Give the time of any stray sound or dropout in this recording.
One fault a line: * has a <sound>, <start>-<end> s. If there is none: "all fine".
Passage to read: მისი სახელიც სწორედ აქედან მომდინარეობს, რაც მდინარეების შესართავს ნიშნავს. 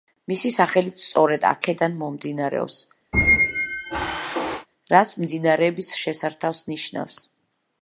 * has a squeak, 3.1-4.7 s